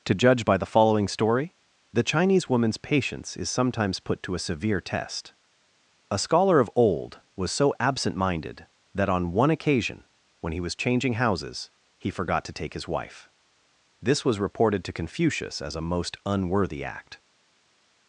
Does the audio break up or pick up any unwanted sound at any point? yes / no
no